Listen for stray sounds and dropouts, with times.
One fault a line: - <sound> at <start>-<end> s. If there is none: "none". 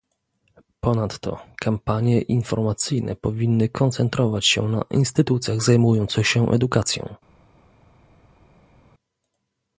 none